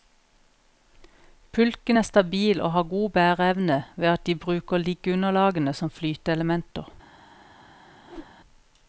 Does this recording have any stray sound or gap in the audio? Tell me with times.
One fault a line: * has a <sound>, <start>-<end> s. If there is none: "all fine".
* has a whoosh, 8.0-8.4 s